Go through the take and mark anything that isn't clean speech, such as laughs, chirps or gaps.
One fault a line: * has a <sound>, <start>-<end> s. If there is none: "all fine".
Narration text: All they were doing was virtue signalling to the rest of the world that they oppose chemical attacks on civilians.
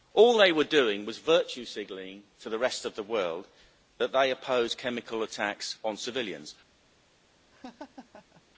* has a laugh, 7.5-8.4 s